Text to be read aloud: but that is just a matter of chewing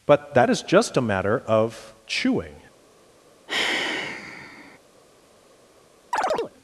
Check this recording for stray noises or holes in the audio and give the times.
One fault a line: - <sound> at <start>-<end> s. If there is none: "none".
- sigh at 3.5-4.8 s
- chirp at 6.1-6.5 s